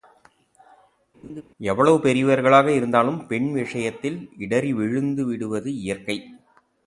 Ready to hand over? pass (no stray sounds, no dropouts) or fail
fail